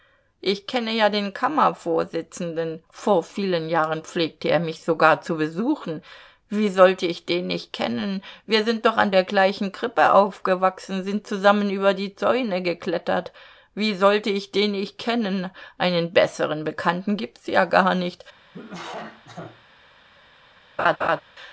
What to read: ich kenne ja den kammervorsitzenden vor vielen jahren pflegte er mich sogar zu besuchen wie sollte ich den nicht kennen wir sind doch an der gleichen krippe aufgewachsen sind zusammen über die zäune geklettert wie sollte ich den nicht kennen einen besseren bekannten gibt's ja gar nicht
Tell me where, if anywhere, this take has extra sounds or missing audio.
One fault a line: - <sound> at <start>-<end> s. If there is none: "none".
- cough at 18.5-19.6 s
- laugh at 20.8-21.2 s